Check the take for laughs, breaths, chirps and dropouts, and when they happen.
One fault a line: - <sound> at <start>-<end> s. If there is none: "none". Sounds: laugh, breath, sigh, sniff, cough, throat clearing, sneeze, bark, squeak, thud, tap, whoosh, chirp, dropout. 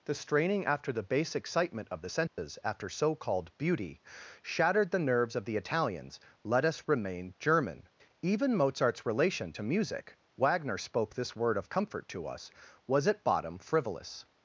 - dropout at 2.3-2.4 s